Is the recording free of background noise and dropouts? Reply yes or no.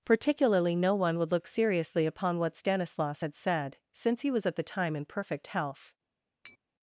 no